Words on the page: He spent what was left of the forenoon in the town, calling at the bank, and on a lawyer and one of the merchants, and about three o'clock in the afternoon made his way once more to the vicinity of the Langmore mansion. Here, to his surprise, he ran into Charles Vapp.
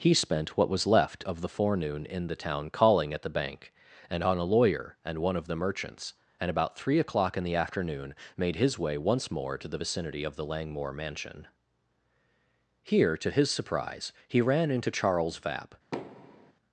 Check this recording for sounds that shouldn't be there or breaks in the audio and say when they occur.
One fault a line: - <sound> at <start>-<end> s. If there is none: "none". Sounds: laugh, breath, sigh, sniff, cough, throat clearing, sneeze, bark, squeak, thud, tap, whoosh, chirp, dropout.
- thud at 15.9-16.5 s